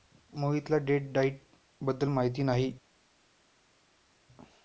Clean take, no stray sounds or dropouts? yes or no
yes